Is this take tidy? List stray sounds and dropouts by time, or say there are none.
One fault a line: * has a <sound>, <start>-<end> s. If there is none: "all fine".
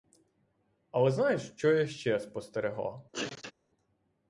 * has a sneeze, 3.1-3.5 s